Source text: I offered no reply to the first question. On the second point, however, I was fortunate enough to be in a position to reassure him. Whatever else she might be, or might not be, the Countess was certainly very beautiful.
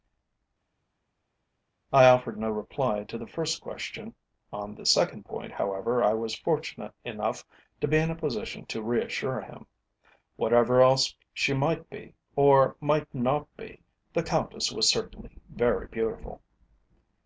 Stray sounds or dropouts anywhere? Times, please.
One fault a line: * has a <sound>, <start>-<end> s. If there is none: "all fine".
all fine